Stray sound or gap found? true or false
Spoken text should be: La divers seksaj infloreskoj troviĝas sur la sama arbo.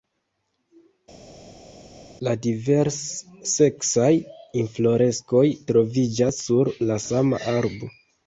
false